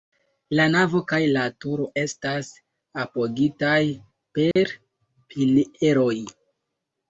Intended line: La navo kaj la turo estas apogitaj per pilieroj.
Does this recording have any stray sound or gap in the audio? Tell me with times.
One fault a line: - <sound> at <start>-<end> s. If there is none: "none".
- dropout at 4.5-4.6 s